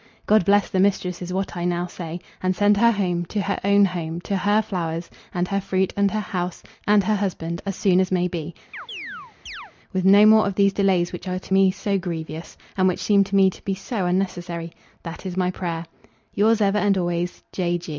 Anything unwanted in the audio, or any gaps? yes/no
yes